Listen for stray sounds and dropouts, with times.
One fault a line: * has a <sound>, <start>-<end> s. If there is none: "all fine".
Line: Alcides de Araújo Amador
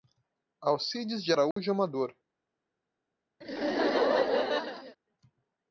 * has a dropout, 1.5-1.6 s
* has a laugh, 3.4-5.0 s